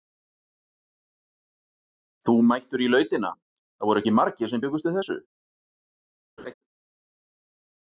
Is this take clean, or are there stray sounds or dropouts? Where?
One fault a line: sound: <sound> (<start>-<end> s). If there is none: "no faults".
sound: laugh (6.4-6.5 s)